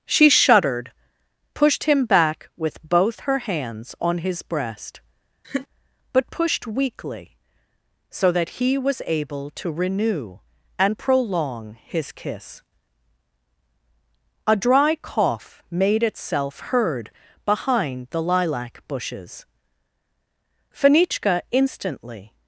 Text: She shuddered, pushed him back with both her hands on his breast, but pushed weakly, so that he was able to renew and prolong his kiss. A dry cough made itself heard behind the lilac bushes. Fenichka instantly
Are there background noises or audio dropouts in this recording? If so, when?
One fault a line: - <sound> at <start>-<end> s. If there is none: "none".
- laugh at 5.4-5.7 s